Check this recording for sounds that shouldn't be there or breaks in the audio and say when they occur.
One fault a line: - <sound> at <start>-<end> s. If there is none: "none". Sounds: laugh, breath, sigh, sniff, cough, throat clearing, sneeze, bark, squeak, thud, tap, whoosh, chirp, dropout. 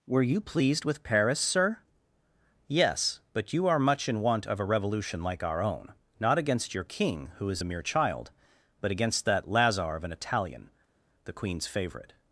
none